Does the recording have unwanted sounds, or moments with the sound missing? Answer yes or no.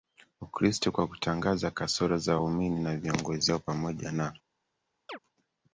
yes